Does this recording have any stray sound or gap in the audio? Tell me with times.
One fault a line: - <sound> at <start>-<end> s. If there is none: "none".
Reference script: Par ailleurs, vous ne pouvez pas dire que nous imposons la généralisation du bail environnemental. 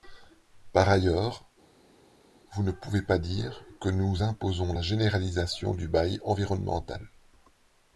none